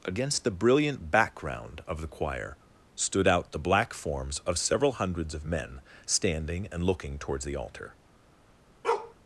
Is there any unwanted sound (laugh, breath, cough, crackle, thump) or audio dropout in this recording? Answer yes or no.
yes